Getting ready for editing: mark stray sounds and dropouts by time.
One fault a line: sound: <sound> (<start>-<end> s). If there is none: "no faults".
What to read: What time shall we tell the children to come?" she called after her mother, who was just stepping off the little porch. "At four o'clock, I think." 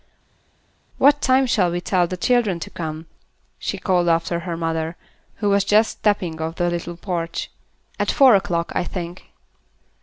no faults